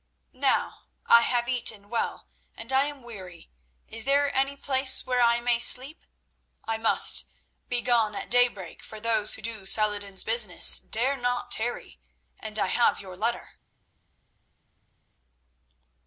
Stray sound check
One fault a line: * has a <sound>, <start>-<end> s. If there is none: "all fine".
all fine